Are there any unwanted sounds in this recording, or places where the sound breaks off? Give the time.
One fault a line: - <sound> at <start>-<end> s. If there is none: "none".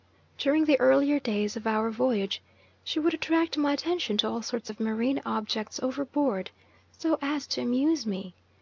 none